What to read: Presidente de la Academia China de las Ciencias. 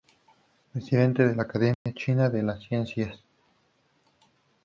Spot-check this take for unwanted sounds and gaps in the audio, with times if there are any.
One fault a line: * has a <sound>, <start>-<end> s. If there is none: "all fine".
* has a dropout, 1.7-1.9 s